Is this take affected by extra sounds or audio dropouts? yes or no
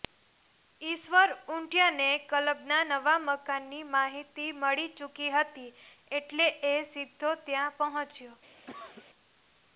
yes